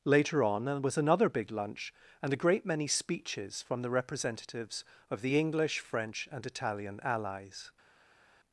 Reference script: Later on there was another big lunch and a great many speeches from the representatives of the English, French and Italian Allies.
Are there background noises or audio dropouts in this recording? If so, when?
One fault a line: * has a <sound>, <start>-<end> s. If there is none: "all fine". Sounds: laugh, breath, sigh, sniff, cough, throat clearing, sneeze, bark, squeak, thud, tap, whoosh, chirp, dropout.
all fine